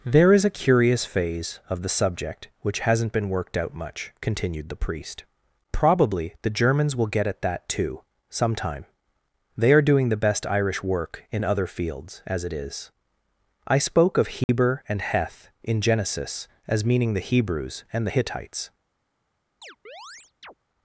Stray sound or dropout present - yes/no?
yes